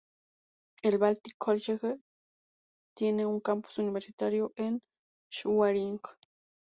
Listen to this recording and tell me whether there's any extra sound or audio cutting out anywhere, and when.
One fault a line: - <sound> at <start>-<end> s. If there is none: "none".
none